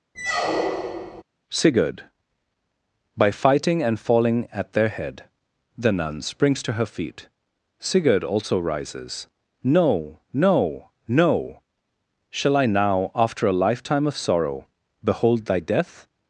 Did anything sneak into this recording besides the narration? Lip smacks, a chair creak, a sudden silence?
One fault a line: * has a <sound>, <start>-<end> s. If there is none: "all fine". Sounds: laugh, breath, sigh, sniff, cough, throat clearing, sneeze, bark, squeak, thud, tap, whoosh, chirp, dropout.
* has a squeak, 0.1-1.2 s